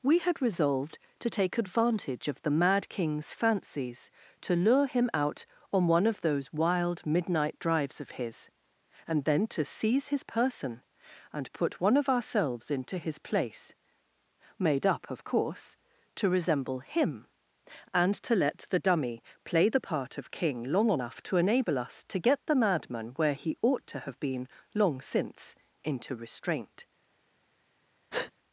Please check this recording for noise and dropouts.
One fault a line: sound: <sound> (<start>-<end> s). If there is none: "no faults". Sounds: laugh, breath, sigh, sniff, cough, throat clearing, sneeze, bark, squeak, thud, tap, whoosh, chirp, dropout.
sound: breath (28.1-28.3 s)